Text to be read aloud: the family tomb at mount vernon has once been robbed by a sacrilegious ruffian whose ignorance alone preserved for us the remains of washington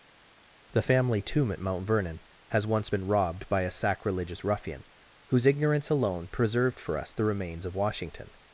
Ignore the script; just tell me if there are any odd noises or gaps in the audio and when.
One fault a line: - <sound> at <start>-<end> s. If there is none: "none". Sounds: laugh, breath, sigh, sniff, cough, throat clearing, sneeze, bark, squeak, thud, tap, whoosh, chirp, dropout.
none